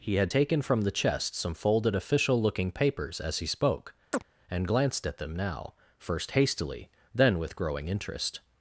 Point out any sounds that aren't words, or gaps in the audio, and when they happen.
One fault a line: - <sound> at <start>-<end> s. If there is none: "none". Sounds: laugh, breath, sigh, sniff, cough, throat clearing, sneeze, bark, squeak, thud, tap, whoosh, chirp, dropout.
- chirp at 4.1-4.2 s